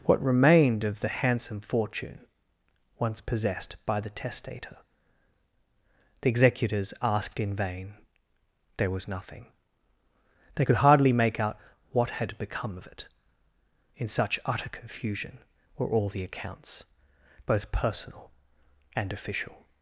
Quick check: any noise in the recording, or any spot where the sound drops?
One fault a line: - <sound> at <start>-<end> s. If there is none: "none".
none